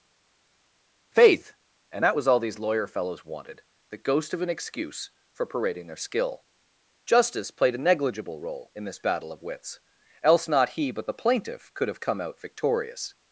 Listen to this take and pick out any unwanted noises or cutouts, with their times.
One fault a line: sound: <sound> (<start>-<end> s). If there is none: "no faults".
no faults